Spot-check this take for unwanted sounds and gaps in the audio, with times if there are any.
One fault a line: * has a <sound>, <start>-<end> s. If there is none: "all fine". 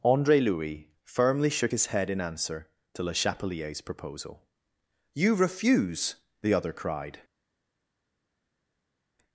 all fine